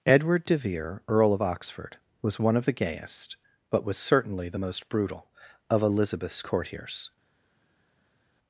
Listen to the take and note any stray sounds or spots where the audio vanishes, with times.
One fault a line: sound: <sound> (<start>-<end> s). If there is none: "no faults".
no faults